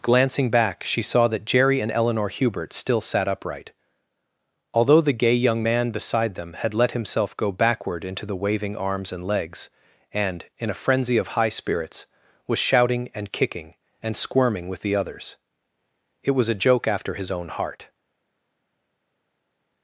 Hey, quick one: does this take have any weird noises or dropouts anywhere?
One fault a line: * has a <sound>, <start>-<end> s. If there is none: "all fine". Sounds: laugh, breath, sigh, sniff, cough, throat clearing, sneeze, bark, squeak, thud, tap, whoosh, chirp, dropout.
all fine